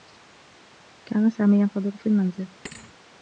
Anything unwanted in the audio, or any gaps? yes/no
yes